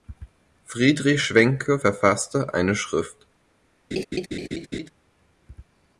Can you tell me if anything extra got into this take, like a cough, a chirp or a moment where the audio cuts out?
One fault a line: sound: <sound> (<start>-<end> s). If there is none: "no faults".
sound: laugh (3.9-4.9 s)